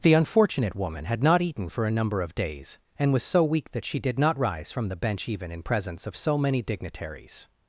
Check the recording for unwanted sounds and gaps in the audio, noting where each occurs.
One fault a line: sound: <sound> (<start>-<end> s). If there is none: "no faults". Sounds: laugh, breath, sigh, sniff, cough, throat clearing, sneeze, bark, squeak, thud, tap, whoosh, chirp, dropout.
no faults